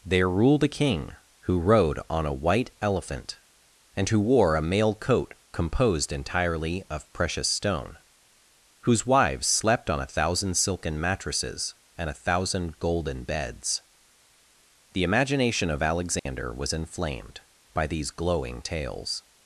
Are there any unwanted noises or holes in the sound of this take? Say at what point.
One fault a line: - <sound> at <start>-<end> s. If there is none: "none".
- dropout at 16.2-16.3 s